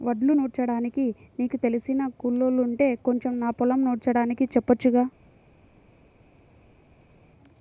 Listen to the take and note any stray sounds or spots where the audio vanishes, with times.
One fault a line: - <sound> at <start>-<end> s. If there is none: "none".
none